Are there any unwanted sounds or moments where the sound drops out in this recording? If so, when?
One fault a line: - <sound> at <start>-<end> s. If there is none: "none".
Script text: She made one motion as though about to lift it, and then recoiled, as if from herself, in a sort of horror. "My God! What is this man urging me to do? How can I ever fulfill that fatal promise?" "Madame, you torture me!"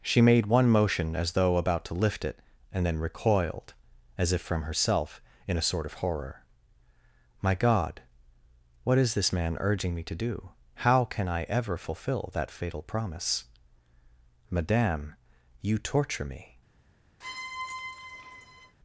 - squeak at 17.2-18.8 s